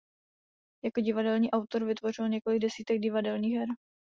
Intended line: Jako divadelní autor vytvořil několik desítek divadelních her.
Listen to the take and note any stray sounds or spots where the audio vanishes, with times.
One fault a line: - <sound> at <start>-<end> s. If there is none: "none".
none